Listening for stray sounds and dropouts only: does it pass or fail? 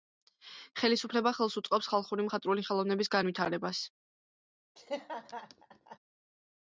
fail